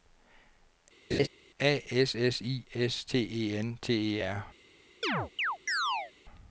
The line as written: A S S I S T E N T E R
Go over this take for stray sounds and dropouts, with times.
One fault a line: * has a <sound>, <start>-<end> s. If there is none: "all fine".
* has a laugh, 1.1-1.3 s
* has a chirp, 5.0-6.1 s